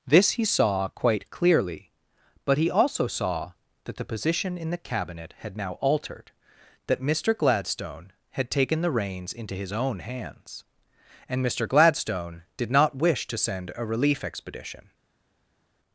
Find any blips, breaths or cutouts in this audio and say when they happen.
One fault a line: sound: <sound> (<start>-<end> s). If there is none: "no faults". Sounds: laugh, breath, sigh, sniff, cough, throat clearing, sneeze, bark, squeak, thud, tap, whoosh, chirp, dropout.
no faults